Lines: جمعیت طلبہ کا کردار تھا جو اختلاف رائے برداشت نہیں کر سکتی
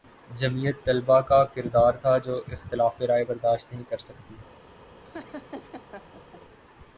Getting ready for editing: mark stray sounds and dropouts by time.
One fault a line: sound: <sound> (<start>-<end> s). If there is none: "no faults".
sound: laugh (5.0-6.4 s)